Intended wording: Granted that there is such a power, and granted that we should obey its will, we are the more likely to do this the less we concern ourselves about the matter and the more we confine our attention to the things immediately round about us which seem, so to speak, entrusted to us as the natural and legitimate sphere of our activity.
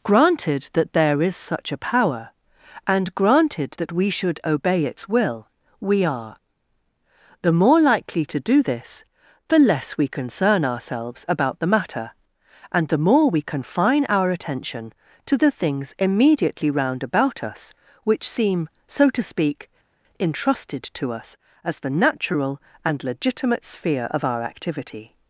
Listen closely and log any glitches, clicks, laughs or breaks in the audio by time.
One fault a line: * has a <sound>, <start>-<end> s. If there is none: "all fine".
all fine